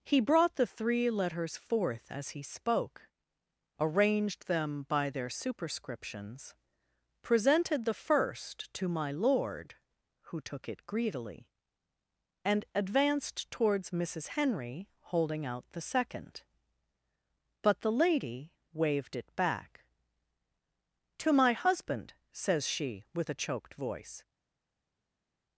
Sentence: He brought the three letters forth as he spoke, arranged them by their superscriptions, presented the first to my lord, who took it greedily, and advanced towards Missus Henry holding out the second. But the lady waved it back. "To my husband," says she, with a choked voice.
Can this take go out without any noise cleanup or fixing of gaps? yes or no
yes